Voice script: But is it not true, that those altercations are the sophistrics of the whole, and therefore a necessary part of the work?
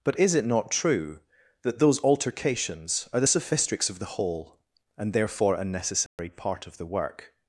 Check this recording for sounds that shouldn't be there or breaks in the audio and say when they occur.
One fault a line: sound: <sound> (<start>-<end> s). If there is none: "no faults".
sound: dropout (6.1-6.2 s)